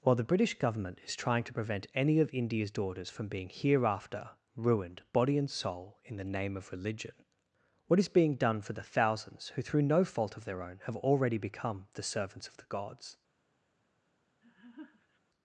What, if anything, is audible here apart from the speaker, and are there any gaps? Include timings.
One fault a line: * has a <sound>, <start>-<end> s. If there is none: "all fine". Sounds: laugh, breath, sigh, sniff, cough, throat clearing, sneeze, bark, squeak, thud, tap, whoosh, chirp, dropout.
* has a laugh, 14.4-15.2 s